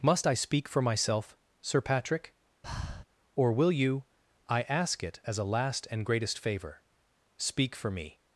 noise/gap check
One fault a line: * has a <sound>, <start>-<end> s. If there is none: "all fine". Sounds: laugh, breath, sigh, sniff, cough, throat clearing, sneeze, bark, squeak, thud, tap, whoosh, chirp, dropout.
* has a breath, 2.6-3.0 s